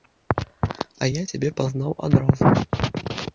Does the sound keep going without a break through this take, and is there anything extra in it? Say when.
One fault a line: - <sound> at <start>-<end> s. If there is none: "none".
none